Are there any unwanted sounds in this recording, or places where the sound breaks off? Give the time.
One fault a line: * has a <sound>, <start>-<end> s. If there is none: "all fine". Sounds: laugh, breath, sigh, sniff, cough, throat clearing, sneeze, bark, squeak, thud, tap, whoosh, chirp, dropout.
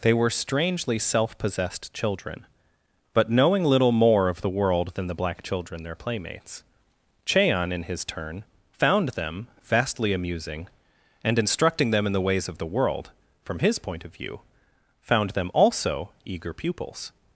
all fine